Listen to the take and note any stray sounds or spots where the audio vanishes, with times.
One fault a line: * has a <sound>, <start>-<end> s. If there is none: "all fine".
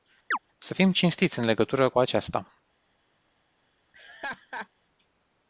* has a chirp, 0.3-0.4 s
* has a laugh, 3.9-4.7 s